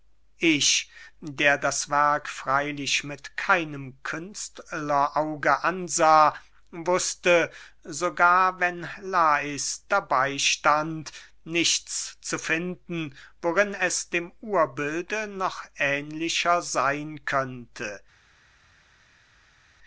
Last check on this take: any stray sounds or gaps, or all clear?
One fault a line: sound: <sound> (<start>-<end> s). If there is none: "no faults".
no faults